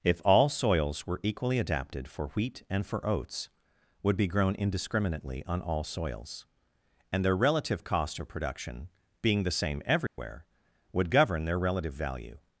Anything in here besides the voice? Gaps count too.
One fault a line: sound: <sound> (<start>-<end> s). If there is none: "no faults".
sound: dropout (10.1-10.2 s)